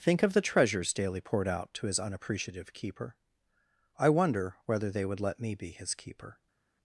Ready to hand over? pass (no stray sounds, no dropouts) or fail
pass